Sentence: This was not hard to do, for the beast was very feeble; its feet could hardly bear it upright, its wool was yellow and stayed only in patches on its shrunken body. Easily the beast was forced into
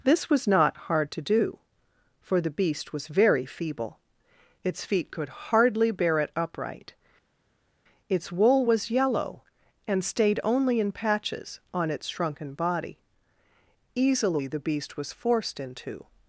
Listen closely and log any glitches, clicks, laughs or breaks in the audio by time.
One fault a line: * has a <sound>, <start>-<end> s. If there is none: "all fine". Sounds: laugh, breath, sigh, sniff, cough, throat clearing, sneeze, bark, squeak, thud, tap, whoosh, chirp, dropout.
all fine